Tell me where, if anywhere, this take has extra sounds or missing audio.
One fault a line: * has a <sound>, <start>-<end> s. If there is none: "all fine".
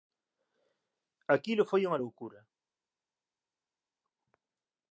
all fine